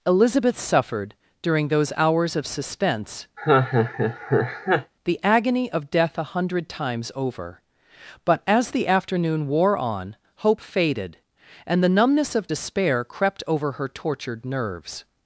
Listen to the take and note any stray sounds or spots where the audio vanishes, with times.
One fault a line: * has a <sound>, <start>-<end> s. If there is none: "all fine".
* has a laugh, 3.4-4.9 s